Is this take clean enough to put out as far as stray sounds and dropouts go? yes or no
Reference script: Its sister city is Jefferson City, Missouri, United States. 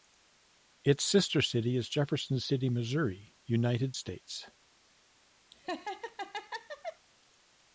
no